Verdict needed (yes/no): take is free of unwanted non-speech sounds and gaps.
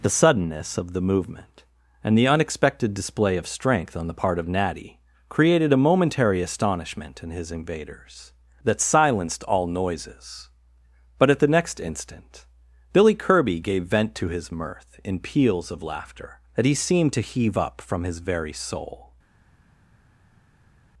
yes